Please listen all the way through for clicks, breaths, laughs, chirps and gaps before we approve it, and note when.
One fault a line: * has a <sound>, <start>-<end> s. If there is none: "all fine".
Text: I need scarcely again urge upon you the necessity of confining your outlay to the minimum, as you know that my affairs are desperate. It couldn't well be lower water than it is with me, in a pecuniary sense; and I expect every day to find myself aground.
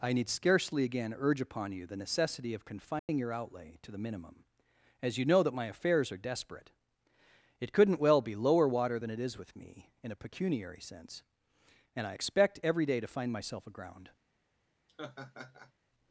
* has a dropout, 3.0-3.1 s
* has a laugh, 14.9-15.7 s